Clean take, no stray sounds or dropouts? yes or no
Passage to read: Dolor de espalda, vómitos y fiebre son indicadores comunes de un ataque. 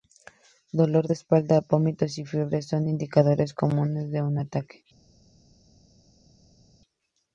yes